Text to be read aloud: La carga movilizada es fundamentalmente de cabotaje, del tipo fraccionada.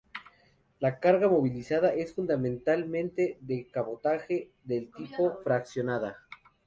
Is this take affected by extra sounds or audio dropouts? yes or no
no